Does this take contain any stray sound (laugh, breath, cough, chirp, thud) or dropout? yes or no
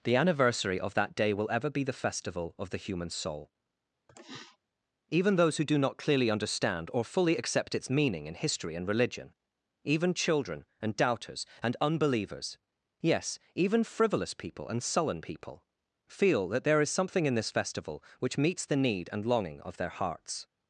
yes